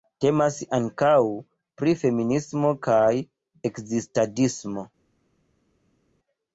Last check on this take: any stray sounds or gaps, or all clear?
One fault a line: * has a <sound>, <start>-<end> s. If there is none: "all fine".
all fine